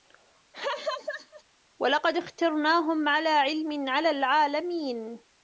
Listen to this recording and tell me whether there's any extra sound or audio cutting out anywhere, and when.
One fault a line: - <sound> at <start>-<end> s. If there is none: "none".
- laugh at 0.5-1.4 s